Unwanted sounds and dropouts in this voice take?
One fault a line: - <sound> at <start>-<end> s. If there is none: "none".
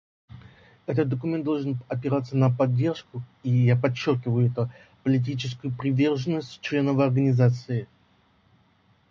none